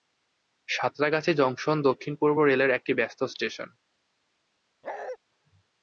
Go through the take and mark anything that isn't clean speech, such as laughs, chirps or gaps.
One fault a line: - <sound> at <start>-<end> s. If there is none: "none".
- bark at 4.8-5.2 s